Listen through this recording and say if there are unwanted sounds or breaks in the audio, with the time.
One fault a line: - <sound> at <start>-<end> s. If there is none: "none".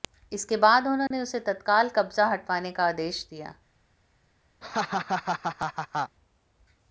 - dropout at 1.1-1.1 s
- laugh at 4.6-6.2 s